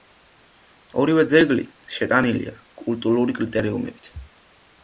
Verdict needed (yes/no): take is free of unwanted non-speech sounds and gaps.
yes